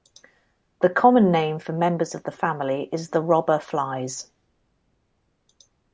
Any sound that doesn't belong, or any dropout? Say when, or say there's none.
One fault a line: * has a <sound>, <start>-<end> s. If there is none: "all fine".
all fine